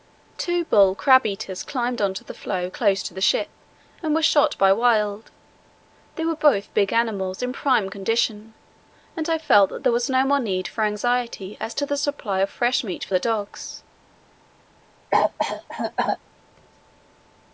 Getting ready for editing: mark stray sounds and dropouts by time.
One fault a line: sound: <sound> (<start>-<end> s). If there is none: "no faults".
sound: cough (15.1-16.2 s)